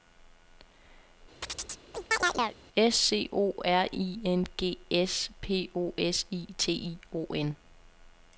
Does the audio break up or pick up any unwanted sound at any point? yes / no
yes